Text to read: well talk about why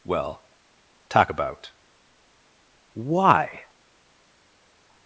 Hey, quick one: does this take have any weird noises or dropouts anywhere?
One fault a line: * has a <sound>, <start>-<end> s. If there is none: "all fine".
all fine